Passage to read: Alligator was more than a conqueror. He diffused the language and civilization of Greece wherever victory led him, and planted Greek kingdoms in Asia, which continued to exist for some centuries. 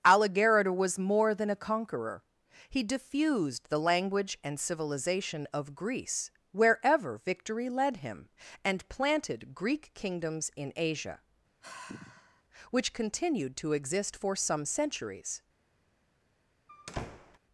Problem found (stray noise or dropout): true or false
true